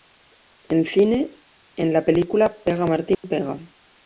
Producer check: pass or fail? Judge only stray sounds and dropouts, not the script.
fail